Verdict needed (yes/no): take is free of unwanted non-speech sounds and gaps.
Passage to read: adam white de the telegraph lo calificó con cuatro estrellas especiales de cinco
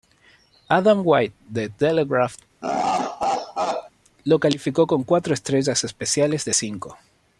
no